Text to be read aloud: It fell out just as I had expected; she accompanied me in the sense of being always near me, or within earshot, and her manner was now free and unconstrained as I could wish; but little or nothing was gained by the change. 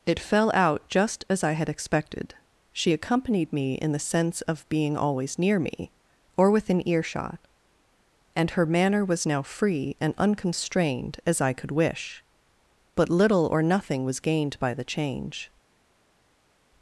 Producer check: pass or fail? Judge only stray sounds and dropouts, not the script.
pass